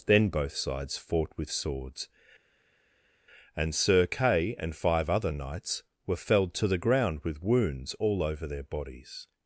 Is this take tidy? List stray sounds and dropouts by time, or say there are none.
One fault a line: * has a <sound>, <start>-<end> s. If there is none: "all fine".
all fine